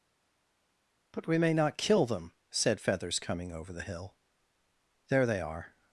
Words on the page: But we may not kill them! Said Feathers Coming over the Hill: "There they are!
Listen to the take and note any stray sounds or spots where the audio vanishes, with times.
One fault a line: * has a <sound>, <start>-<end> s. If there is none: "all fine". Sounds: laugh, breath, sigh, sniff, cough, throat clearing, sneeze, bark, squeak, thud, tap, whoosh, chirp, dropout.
all fine